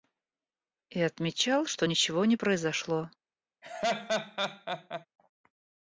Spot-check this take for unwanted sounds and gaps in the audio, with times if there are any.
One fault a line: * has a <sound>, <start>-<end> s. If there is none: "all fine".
* has a laugh, 3.6-5.1 s